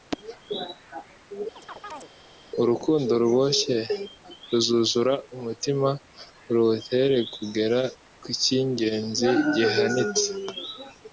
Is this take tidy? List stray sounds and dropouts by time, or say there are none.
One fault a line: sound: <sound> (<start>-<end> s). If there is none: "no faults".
sound: chirp (1.6-2.1 s)